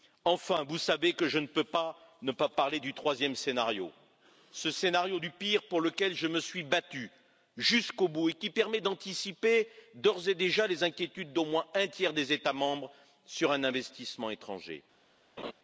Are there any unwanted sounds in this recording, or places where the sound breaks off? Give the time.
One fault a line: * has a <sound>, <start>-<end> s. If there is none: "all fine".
* has a laugh, 15.4-15.5 s